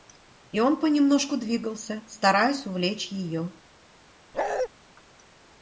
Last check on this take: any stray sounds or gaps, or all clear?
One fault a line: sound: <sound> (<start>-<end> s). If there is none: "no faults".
sound: bark (4.3-4.7 s)